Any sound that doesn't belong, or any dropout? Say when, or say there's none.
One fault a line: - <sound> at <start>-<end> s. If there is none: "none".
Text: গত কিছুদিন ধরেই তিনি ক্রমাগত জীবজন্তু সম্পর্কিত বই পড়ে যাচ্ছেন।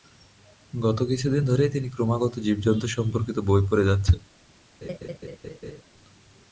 - laugh at 4.8-5.8 s